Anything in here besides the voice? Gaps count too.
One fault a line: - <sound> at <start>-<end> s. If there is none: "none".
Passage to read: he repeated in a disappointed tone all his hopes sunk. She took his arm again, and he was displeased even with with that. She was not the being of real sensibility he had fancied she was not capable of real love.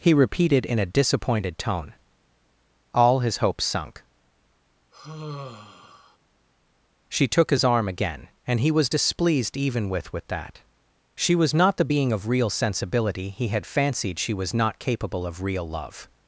- sigh at 4.9-6.2 s